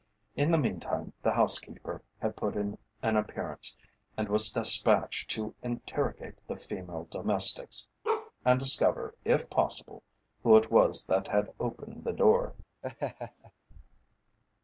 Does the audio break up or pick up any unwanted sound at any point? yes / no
yes